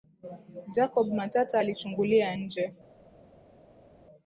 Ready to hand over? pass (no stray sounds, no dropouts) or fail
pass